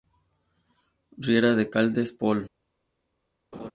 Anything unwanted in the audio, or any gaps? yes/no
yes